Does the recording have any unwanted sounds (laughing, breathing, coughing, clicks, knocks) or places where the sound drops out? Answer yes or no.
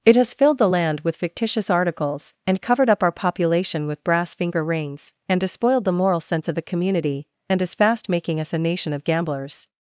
no